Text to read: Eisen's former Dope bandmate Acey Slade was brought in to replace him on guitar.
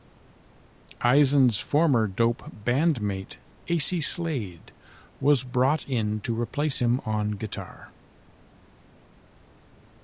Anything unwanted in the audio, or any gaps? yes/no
no